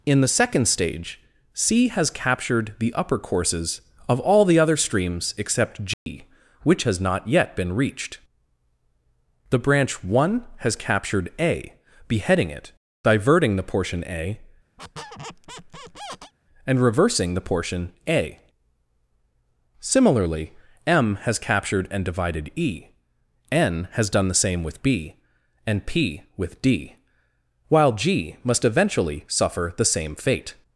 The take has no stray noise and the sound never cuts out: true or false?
false